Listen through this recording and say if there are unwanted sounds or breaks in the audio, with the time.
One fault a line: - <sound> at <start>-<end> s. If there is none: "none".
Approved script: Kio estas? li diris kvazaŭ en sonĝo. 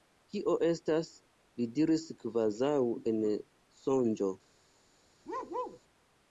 - bark at 5.3-5.8 s